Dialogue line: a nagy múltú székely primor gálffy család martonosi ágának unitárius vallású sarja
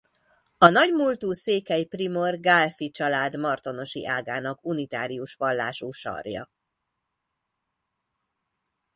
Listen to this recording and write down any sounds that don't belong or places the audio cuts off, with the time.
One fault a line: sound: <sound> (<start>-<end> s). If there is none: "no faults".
no faults